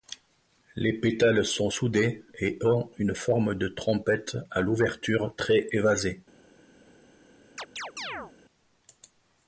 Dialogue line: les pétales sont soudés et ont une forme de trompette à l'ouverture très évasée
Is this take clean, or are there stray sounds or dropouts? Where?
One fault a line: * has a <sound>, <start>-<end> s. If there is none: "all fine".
* has a chirp, 7.6-8.3 s